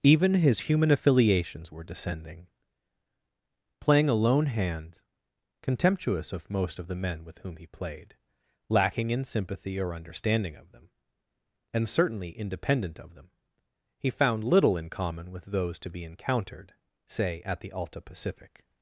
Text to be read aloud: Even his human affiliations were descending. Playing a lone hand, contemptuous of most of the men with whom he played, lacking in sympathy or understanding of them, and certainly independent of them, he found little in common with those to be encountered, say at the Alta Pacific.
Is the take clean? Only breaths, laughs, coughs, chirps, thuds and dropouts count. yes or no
yes